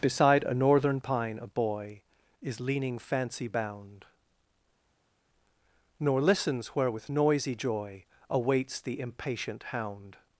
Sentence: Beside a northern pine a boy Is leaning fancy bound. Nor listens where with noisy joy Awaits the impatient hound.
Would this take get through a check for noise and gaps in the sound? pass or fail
pass